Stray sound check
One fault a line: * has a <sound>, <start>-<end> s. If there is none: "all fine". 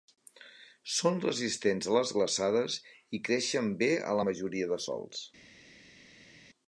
all fine